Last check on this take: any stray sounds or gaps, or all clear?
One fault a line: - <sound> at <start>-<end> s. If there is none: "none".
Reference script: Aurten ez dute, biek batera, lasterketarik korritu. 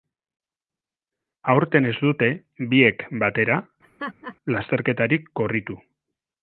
- laugh at 3.8-4.4 s